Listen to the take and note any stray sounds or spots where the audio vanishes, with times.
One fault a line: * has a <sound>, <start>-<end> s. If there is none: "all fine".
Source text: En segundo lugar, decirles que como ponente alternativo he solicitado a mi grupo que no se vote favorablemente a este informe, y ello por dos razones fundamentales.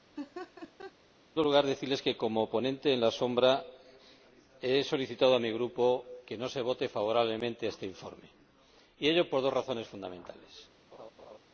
* has a laugh, 0.2-0.9 s
* has a laugh, 10.9-11.4 s